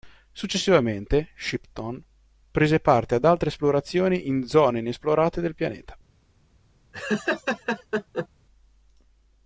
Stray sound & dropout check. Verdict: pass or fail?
fail